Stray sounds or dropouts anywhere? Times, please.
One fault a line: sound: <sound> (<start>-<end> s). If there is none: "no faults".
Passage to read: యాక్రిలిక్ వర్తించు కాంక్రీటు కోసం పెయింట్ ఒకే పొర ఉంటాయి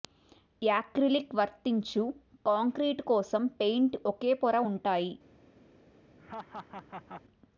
sound: laugh (6.2-7.2 s)